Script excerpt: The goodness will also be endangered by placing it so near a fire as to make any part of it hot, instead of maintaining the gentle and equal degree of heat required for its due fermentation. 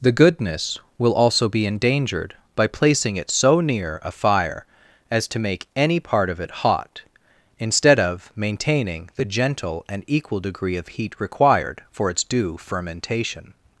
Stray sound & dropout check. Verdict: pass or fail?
pass